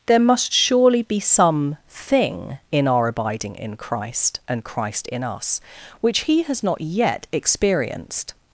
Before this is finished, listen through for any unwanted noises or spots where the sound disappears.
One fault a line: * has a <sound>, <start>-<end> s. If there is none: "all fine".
all fine